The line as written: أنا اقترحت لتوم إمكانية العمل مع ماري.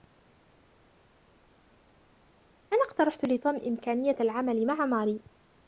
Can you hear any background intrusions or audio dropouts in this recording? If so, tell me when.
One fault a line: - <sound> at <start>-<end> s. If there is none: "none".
none